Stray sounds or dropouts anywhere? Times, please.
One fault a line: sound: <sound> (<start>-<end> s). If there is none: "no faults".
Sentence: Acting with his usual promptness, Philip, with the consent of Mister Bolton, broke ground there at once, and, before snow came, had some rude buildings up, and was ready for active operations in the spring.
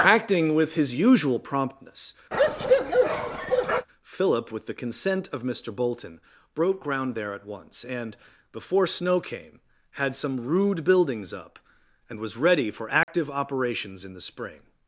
sound: bark (2.3-3.9 s)
sound: dropout (13.0-13.1 s)